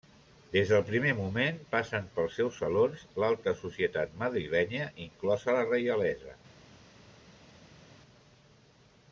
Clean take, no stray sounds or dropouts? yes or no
yes